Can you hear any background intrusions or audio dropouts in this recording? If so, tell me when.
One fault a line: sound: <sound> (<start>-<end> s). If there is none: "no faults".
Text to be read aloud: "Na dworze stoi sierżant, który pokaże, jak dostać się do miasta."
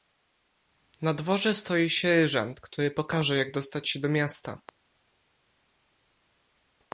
no faults